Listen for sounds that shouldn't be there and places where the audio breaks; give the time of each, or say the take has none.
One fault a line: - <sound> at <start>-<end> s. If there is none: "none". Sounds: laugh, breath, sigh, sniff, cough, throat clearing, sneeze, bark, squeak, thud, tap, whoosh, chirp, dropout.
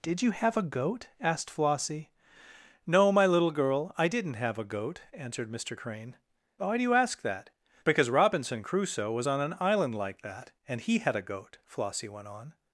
none